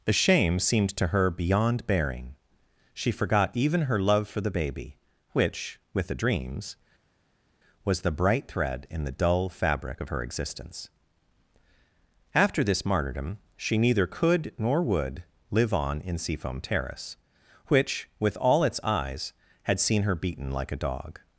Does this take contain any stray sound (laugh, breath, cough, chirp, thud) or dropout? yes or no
no